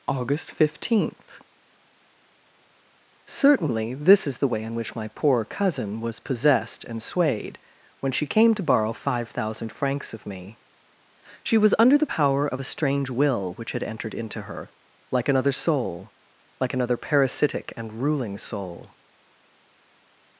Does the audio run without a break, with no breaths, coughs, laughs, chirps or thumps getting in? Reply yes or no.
yes